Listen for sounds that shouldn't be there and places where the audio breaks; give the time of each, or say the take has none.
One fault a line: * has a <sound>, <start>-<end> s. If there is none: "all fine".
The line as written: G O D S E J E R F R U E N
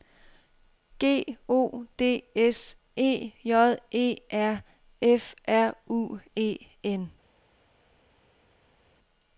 all fine